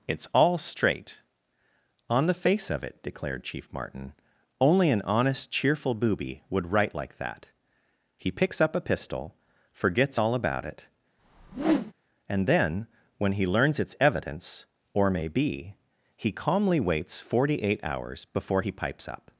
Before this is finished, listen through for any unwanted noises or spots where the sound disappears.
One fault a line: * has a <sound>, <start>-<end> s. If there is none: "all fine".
* has a whoosh, 11.2-11.9 s